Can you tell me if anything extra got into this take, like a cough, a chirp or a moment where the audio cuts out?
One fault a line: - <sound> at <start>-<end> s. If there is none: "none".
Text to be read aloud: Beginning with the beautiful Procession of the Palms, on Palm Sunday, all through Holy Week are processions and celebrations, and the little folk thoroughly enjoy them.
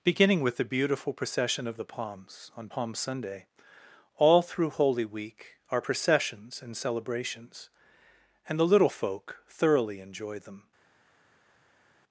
none